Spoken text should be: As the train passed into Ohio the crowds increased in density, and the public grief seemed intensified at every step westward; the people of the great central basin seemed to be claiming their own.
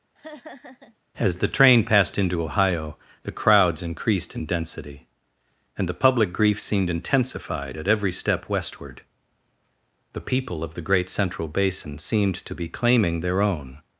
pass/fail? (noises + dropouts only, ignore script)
fail